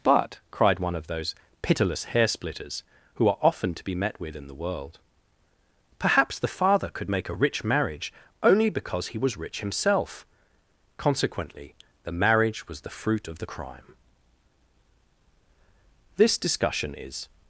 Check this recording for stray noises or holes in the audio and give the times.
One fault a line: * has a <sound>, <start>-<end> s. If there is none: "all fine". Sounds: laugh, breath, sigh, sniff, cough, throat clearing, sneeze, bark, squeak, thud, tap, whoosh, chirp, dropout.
all fine